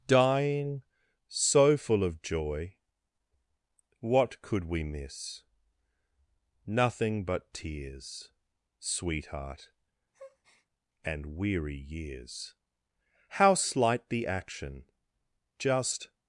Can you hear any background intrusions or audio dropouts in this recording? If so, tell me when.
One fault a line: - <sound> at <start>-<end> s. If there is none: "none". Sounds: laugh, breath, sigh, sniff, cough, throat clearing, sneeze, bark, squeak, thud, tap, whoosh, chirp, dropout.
- breath at 10.1-10.7 s